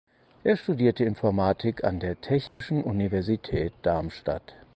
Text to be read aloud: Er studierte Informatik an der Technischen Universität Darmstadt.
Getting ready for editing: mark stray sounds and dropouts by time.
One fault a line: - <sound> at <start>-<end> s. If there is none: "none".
- dropout at 2.5-2.6 s